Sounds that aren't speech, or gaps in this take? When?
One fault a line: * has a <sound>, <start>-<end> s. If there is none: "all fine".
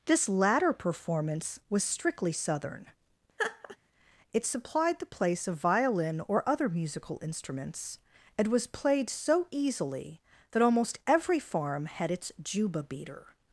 * has a laugh, 3.4-3.8 s